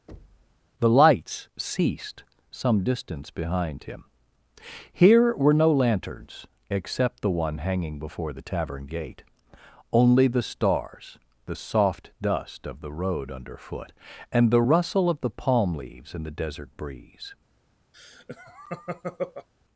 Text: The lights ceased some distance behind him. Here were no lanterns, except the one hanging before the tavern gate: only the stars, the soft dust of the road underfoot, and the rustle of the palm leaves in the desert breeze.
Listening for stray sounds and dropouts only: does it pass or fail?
fail